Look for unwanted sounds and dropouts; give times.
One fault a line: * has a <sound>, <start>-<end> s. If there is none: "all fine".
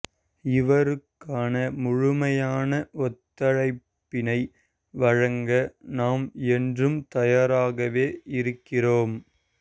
all fine